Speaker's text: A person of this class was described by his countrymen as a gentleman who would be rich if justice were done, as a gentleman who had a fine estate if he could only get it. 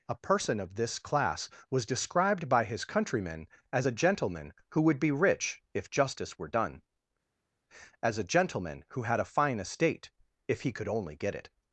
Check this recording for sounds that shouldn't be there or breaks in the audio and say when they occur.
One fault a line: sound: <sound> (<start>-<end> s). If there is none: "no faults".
no faults